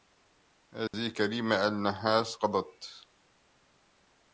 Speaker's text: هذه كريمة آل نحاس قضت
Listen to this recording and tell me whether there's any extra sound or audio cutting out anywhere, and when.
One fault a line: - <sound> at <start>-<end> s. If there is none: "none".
- dropout at 0.9-0.9 s